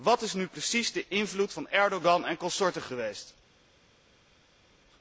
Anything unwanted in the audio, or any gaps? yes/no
no